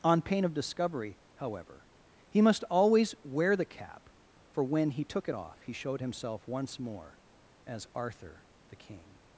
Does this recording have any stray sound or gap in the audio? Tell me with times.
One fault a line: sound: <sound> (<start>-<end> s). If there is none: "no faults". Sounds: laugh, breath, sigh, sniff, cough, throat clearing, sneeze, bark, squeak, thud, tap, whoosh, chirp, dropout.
no faults